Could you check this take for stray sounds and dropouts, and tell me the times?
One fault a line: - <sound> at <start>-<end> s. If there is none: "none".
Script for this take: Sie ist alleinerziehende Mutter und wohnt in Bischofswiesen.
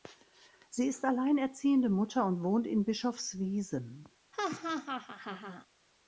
- laugh at 4.3-5.7 s